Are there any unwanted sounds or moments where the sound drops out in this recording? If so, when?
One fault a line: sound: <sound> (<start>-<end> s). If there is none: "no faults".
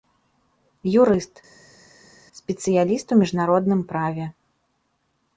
no faults